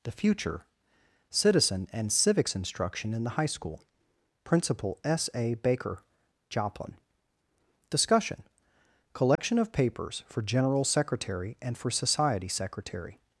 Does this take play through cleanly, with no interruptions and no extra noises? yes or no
no